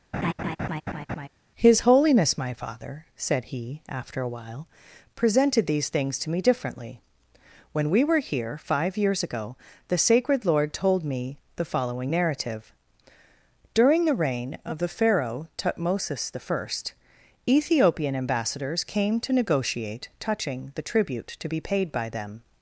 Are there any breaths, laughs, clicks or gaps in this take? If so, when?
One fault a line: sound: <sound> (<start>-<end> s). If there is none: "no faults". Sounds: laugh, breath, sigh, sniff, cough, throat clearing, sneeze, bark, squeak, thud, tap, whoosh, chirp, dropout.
sound: laugh (0.1-1.3 s)